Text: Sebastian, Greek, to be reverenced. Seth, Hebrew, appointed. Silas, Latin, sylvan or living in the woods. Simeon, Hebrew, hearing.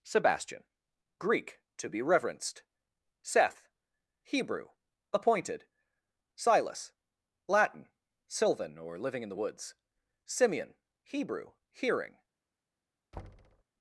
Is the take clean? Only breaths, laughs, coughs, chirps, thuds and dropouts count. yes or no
no